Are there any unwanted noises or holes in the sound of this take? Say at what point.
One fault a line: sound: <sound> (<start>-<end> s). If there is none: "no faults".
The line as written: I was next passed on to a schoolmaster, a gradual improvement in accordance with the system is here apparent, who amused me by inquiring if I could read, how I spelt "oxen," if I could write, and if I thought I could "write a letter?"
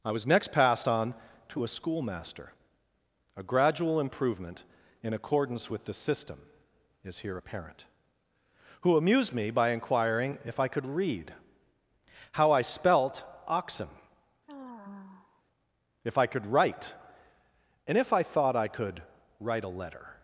sound: sigh (14.5-15.4 s)